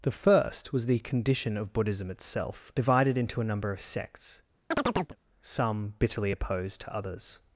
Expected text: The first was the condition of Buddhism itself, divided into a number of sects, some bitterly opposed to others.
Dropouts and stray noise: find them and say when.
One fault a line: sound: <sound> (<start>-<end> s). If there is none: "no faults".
sound: chirp (4.7-5.2 s)